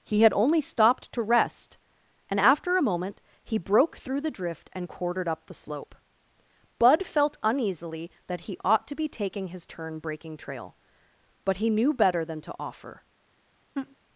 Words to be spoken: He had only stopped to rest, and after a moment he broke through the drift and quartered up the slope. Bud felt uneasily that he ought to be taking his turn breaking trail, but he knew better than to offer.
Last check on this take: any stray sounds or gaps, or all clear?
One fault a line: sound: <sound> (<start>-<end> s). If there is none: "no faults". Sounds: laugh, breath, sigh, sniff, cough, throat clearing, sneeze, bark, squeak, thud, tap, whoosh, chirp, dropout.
sound: laugh (13.7-14.0 s)